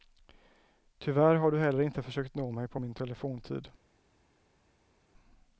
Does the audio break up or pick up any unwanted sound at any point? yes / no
no